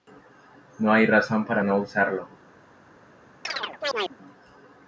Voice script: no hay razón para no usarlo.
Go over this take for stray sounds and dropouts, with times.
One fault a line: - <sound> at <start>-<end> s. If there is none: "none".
- chirp at 3.4-4.2 s